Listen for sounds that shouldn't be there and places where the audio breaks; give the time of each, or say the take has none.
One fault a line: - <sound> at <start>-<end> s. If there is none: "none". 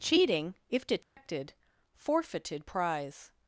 - dropout at 1.0-1.2 s